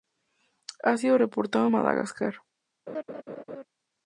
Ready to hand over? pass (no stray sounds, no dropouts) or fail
fail